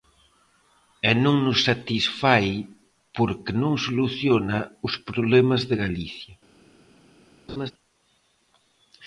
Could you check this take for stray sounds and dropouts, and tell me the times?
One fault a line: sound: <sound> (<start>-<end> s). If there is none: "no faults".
sound: laugh (7.5-7.7 s)